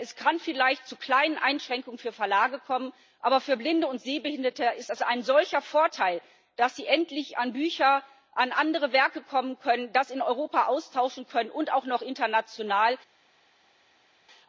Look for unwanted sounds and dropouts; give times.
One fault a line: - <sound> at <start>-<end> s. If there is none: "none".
none